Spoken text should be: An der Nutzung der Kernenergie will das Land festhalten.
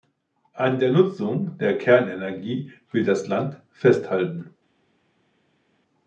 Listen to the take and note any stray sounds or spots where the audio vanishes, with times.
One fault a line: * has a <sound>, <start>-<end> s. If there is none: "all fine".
all fine